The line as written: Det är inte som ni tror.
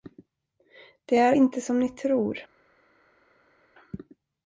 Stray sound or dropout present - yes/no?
no